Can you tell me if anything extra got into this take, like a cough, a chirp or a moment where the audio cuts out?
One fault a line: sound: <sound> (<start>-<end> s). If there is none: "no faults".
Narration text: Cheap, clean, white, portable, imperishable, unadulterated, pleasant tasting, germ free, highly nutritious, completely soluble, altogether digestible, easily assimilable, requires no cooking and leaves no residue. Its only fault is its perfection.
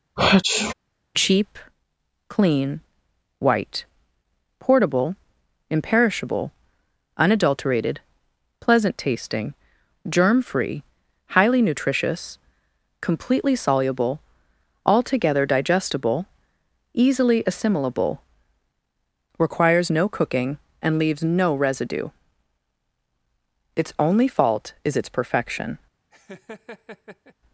sound: sneeze (0.2-0.7 s)
sound: laugh (26.1-27.3 s)